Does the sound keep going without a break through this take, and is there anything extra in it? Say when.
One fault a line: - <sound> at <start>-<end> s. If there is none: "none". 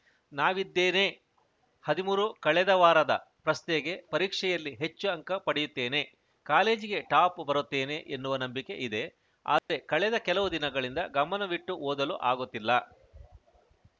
- dropout at 9.6-9.7 s